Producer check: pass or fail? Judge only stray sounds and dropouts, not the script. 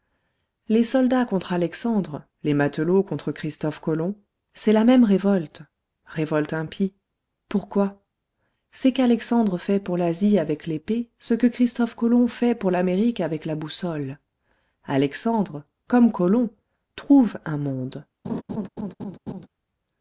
fail